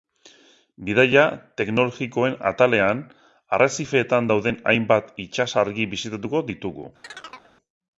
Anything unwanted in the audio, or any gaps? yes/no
yes